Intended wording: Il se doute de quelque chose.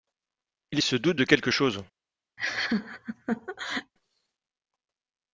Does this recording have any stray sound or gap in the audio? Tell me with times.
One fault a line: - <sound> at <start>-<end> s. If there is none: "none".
- laugh at 2.4-3.9 s